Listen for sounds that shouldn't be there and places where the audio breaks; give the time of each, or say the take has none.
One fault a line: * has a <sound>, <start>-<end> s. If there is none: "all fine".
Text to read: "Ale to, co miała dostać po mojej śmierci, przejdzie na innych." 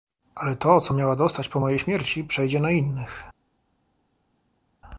all fine